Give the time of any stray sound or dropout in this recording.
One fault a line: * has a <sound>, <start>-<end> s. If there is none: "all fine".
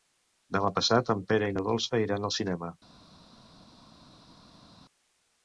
all fine